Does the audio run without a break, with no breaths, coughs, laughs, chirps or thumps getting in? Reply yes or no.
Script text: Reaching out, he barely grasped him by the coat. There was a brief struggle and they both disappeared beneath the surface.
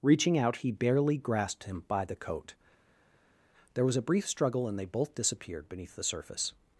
yes